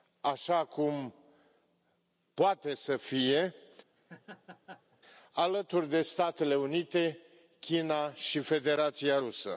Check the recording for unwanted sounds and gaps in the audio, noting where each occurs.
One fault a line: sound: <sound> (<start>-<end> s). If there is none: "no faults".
sound: laugh (4.0-5.0 s)